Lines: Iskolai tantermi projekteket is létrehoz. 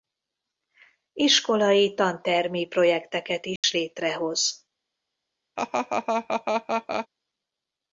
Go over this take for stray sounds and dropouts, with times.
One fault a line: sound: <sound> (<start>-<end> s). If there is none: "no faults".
sound: dropout (3.6-3.6 s)
sound: laugh (5.6-7.1 s)